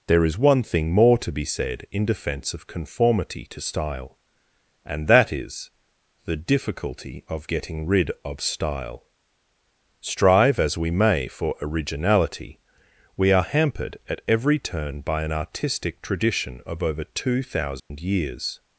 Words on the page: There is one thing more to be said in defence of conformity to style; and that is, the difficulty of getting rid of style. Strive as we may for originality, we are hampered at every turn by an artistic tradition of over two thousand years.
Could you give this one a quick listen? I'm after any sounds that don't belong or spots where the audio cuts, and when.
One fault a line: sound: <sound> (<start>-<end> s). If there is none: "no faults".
sound: dropout (17.8-17.9 s)